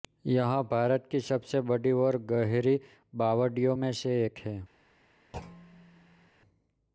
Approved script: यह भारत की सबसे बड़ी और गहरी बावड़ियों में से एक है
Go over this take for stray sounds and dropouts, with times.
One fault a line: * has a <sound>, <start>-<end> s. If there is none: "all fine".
* has a thud, 5.3-6.3 s